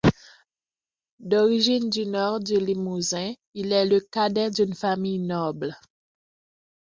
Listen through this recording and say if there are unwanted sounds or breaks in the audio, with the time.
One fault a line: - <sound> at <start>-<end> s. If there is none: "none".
none